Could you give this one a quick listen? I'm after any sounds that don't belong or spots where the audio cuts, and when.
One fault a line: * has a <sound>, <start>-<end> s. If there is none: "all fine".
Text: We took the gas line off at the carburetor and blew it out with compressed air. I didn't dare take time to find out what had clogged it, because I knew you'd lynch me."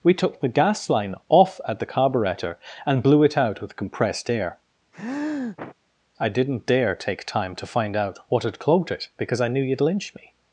* has a sniff, 4.9-5.8 s